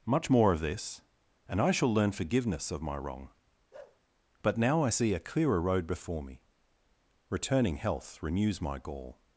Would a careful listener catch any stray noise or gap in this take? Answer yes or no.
yes